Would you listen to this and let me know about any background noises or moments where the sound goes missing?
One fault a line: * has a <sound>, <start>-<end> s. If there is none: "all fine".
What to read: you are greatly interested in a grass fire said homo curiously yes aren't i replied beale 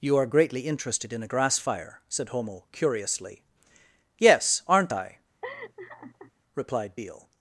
* has a laugh, 5.4-6.3 s